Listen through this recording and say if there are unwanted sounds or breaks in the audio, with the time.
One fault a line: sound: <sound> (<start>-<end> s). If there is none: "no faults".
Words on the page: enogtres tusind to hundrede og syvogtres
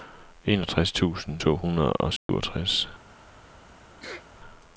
sound: dropout (2.2-2.3 s)
sound: sneeze (4.0-4.3 s)